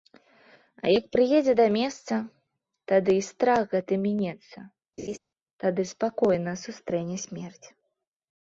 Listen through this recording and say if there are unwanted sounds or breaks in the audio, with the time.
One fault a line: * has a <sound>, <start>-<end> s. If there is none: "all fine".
* has a laugh, 5.0-5.2 s